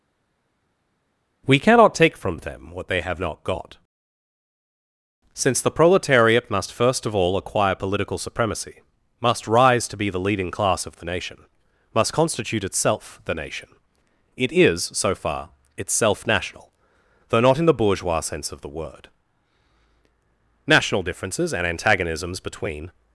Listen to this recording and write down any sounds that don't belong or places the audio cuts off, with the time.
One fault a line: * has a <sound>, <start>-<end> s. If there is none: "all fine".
all fine